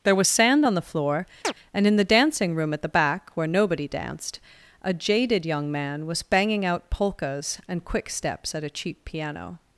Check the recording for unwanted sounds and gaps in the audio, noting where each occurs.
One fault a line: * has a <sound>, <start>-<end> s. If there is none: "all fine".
* has a chirp, 1.4-1.5 s